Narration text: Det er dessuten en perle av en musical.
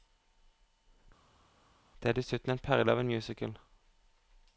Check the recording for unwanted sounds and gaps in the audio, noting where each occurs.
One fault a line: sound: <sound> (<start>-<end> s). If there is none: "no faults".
no faults